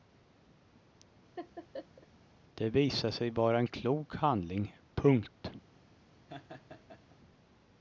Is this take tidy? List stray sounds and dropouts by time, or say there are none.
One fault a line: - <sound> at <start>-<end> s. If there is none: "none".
- laugh at 1.4-2.1 s
- laugh at 6.3-7.2 s